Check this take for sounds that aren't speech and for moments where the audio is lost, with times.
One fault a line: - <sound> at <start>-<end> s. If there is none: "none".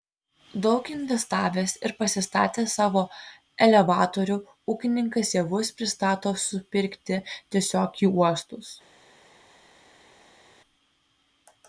none